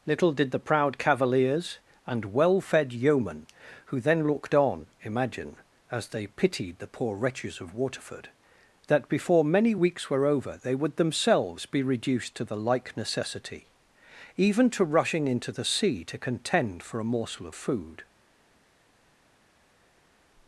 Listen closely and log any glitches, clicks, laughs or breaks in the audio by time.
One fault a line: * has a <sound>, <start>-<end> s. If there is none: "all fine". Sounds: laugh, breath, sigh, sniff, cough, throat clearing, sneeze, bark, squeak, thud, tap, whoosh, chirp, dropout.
all fine